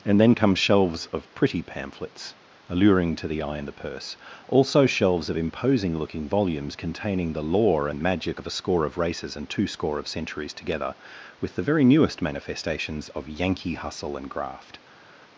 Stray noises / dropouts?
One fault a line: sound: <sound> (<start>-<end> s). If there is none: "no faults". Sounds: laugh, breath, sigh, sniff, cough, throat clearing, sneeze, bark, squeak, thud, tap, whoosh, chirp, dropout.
no faults